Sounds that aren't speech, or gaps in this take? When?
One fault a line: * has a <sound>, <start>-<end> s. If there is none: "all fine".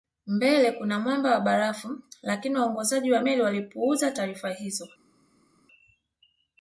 all fine